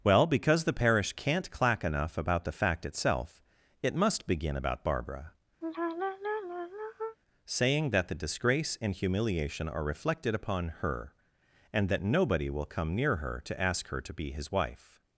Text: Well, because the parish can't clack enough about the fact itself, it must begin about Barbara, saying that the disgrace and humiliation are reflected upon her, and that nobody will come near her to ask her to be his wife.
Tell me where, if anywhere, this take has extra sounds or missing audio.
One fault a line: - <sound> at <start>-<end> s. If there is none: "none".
- sigh at 5.6-7.2 s